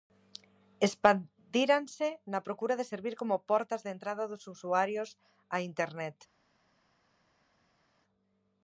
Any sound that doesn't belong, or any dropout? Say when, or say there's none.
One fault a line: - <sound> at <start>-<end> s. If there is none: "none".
none